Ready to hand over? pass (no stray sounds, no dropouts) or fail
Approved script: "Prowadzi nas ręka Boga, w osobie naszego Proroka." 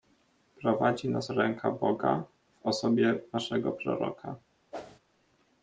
fail